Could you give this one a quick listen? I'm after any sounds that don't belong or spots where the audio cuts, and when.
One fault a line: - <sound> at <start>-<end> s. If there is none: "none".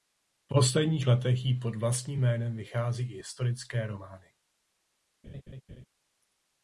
- laugh at 5.2-5.9 s